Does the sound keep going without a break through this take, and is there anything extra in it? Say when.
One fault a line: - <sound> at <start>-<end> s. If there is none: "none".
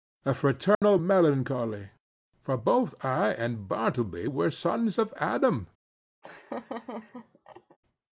- dropout at 0.7-0.8 s
- laugh at 6.2-7.8 s